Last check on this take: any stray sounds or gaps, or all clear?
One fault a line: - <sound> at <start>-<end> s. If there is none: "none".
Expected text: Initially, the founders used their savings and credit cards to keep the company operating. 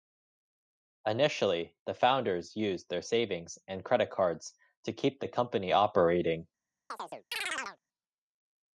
- chirp at 6.9-7.8 s